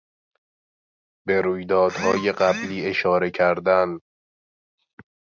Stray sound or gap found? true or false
false